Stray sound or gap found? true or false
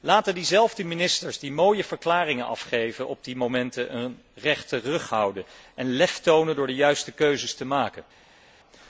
false